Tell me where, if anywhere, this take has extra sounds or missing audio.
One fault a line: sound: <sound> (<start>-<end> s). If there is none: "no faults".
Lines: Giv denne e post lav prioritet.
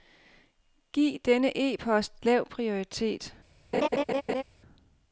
sound: laugh (3.7-4.4 s)